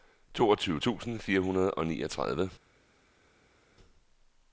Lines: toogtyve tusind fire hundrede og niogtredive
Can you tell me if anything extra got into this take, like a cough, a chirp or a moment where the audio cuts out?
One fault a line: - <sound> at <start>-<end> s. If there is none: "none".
none